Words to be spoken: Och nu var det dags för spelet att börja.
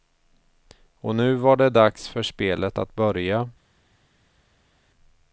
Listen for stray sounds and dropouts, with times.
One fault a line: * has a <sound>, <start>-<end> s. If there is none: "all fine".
all fine